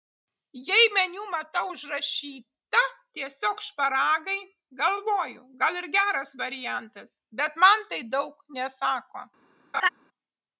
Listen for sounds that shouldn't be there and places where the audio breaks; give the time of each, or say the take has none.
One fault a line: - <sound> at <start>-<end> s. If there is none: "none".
- laugh at 9.7-9.9 s